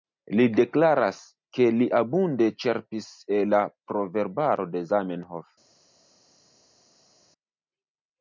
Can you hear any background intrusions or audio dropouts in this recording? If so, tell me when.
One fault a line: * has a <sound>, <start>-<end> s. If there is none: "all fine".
all fine